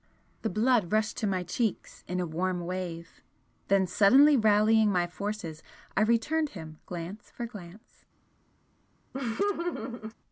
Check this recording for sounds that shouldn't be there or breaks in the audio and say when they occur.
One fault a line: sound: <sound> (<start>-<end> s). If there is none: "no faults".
sound: laugh (9.1-10.1 s)